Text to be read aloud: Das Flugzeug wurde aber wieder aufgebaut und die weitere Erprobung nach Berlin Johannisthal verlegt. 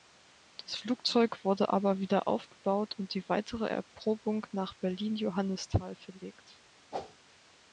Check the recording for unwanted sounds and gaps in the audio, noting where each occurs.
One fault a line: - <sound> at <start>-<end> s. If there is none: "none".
- whoosh at 6.9-7.2 s